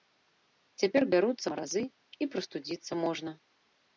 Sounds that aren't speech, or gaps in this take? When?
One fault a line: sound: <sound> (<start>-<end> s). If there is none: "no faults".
no faults